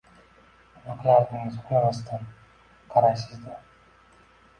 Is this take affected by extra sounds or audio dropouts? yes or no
no